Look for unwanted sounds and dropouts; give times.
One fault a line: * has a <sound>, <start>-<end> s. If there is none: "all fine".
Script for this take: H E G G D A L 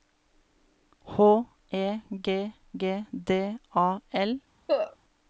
* has a cough, 4.7-5.0 s